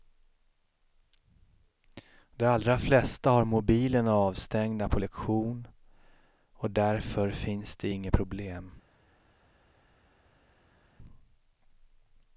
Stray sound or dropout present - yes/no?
no